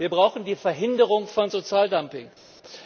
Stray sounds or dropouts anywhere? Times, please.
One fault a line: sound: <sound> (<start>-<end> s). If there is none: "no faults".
no faults